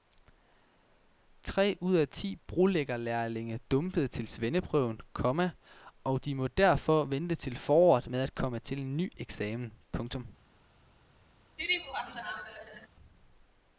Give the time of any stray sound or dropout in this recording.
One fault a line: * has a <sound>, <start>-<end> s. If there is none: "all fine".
* has a laugh, 11.6-12.9 s